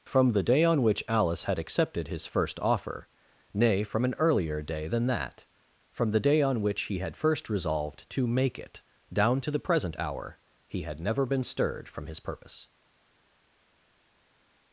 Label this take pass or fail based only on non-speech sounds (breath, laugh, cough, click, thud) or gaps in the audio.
pass